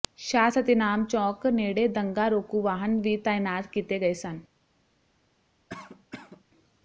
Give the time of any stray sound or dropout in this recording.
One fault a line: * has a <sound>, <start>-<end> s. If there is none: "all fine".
* has a cough, 5.7-6.4 s